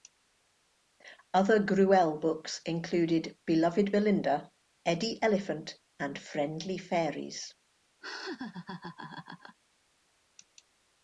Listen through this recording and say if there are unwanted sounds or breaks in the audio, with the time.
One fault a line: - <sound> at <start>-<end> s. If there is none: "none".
- laugh at 8.0-9.6 s